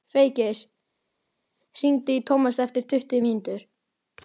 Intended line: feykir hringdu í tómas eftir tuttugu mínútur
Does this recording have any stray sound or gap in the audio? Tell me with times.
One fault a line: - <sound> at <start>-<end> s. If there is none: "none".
none